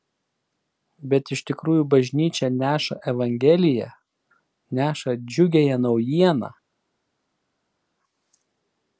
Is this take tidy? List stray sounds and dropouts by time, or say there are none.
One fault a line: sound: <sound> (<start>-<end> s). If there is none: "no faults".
no faults